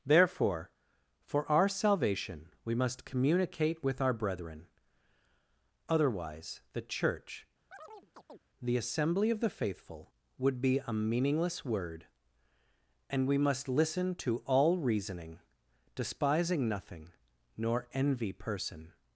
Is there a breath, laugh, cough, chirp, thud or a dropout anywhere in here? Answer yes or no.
yes